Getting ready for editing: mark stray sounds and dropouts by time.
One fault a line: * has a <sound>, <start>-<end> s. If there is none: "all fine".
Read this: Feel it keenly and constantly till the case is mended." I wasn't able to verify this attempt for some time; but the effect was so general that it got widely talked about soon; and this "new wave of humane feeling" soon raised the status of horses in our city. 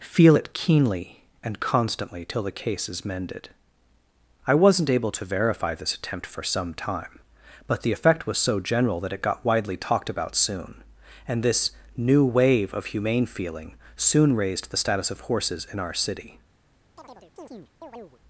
* has a chirp, 17.0-18.2 s